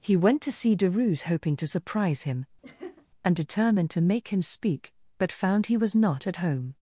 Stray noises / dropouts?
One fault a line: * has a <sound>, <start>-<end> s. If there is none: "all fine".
* has a laugh, 2.6-3.1 s